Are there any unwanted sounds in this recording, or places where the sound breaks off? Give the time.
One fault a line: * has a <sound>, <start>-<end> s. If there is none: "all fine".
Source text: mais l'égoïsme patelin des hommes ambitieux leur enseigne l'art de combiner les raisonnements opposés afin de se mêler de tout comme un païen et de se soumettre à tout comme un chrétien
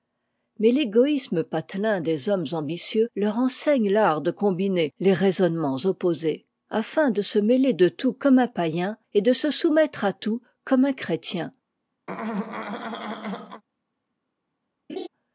* has a throat clearing, 12.1-13.6 s
* has a laugh, 14.9-15.1 s